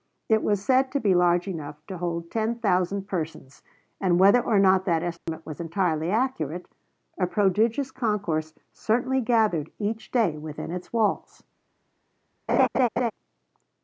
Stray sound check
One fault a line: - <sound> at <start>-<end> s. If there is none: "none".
- dropout at 5.2-5.3 s
- laugh at 12.5-13.1 s